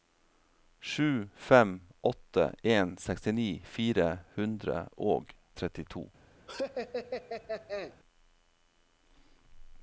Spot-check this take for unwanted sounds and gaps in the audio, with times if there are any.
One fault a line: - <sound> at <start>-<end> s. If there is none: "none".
- laugh at 6.5-8.0 s